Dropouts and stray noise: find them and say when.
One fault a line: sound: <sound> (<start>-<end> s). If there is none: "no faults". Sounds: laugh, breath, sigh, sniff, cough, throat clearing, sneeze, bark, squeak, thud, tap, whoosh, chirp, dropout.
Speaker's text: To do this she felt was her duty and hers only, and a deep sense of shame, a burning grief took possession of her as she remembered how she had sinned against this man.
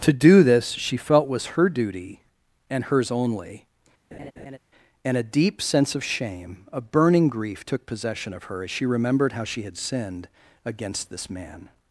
sound: laugh (4.1-4.6 s)